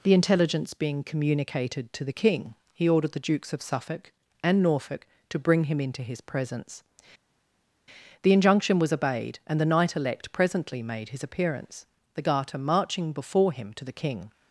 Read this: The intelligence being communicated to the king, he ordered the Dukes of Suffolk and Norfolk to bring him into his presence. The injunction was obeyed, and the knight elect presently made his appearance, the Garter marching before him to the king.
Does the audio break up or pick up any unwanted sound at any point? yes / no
no